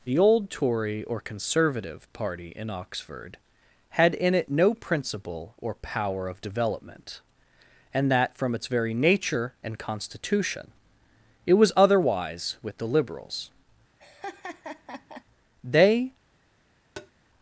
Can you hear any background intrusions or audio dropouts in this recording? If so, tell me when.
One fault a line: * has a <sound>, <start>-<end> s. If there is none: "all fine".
* has a laugh, 14.0-15.2 s
* has a tap, 17.0-17.1 s